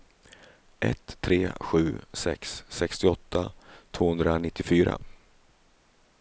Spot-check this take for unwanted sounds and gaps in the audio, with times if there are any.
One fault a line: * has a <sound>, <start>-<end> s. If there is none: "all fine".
all fine